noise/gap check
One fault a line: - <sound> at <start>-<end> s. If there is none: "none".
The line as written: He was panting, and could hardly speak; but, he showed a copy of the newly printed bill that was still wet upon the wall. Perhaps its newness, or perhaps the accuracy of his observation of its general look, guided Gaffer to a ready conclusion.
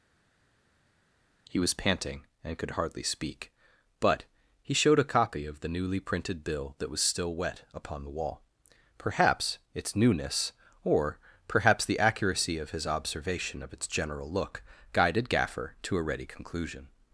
none